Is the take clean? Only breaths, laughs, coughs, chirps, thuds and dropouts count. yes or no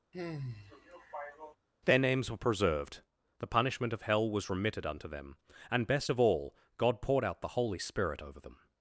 no